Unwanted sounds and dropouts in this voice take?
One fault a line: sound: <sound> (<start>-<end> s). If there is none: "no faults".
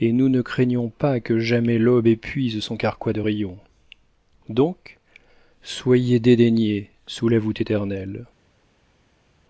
no faults